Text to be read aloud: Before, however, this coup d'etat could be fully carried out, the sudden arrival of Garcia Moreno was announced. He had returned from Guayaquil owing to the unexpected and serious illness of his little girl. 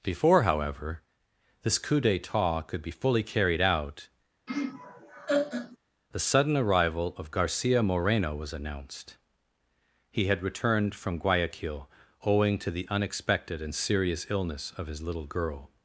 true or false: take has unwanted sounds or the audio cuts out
true